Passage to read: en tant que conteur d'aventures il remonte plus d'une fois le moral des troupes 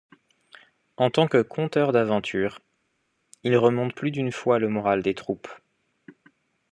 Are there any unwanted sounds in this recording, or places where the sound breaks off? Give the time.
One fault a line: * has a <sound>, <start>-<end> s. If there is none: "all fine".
all fine